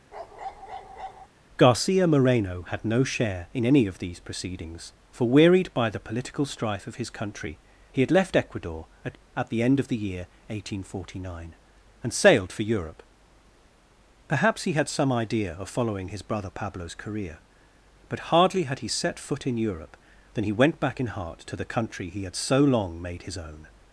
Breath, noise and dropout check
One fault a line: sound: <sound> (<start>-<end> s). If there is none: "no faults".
sound: bark (0.1-1.3 s)